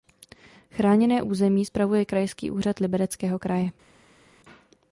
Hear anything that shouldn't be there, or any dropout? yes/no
no